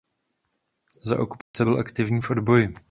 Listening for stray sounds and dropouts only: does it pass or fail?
fail